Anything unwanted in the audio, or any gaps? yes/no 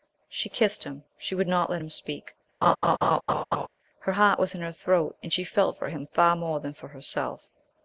yes